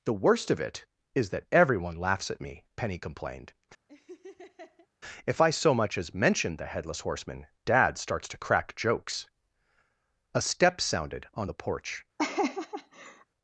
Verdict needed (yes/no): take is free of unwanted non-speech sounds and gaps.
no